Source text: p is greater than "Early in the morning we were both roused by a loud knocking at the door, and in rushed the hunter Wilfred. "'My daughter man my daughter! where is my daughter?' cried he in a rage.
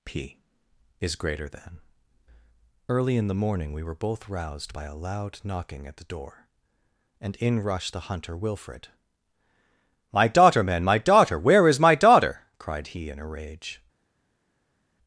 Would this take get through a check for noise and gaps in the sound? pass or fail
pass